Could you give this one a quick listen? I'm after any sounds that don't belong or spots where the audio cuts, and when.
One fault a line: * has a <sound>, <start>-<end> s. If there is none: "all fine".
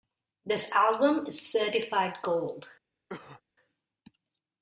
* has a cough, 3.1-3.4 s